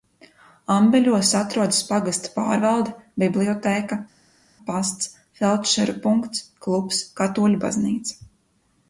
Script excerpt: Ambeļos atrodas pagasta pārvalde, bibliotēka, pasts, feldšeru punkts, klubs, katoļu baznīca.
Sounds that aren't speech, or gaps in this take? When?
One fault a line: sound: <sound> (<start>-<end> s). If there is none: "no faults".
no faults